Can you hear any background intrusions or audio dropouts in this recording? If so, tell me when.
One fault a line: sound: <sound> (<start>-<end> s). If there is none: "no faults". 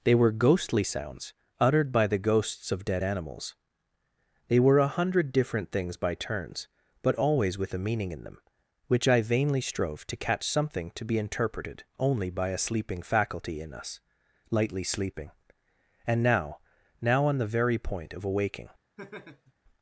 sound: laugh (19.0-19.5 s)